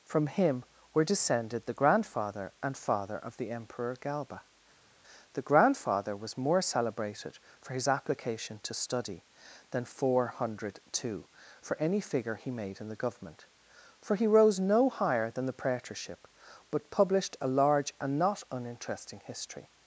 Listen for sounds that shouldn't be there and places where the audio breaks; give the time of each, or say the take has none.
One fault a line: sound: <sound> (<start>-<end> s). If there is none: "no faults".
no faults